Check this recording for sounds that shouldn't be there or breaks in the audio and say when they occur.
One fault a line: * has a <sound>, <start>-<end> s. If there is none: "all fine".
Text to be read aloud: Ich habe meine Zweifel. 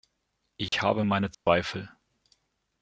* has a dropout, 0.7-0.7 s
* has a dropout, 1.3-1.5 s